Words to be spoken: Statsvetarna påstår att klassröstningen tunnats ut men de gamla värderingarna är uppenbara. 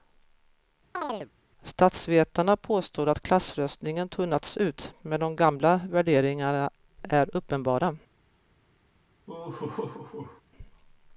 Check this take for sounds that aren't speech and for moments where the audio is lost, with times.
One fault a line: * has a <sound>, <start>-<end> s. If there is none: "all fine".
* has a chirp, 0.9-1.3 s
* has a laugh, 9.3-10.4 s